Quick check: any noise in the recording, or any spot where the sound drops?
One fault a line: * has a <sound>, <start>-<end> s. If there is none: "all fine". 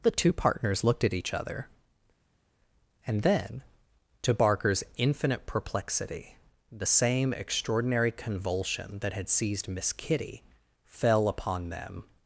all fine